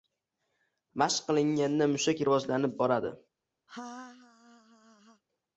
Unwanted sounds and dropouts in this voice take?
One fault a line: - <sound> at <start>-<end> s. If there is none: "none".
- laugh at 3.7-5.2 s